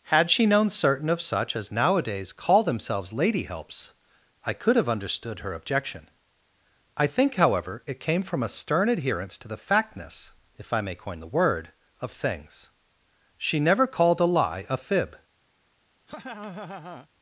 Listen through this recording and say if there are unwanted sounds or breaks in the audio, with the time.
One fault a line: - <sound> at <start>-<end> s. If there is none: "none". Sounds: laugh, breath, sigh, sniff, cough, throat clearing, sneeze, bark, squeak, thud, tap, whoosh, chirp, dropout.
- laugh at 16.1-17.1 s